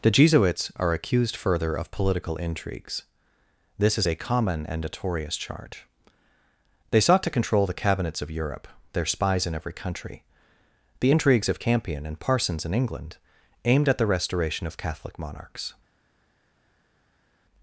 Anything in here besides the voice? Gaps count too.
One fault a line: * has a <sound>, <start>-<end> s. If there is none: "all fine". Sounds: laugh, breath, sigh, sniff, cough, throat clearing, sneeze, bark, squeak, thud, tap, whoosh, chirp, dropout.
all fine